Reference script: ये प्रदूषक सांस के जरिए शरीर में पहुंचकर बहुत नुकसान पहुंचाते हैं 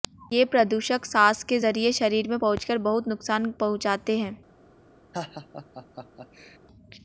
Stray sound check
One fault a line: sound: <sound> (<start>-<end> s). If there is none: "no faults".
sound: laugh (5.1-6.6 s)